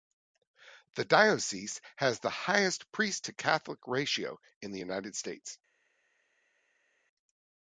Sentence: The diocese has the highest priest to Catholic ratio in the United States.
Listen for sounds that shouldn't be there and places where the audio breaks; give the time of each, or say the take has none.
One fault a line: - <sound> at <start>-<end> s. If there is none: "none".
none